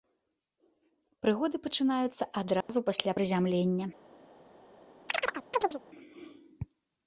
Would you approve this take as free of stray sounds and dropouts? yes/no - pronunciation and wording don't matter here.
no